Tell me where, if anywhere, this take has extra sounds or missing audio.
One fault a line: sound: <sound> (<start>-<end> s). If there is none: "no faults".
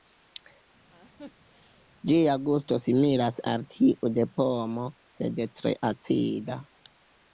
sound: laugh (0.9-1.9 s)